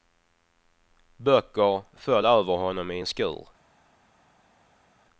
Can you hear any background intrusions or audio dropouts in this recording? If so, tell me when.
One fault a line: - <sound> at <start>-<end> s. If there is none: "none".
none